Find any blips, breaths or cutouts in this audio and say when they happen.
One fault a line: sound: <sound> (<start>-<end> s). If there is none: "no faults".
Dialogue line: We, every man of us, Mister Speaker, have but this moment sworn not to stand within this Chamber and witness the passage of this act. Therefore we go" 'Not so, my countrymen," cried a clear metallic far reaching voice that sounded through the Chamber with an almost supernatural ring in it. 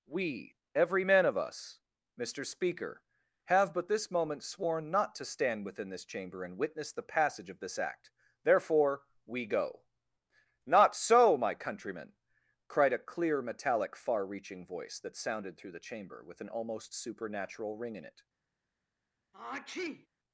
sound: sneeze (19.3-20.1 s)